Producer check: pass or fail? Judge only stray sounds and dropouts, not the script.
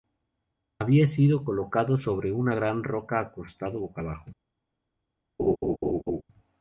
fail